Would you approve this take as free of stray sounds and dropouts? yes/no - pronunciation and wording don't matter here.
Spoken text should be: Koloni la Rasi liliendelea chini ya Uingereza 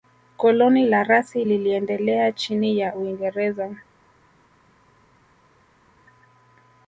yes